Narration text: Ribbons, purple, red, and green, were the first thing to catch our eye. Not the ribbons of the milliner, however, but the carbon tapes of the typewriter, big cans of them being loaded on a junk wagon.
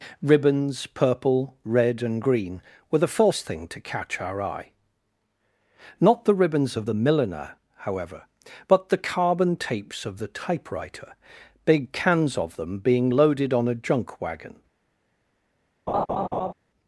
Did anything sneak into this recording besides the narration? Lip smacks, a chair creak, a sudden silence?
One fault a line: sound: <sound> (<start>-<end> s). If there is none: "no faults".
sound: laugh (15.9-16.5 s)